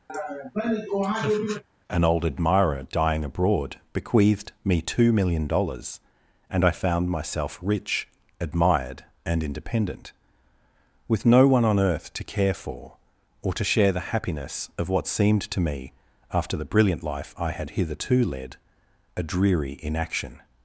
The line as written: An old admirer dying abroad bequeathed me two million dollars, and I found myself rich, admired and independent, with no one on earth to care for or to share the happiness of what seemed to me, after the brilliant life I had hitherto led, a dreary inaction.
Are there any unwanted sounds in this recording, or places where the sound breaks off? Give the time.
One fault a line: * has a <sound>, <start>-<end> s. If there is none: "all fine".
* has a laugh, 0.1-1.6 s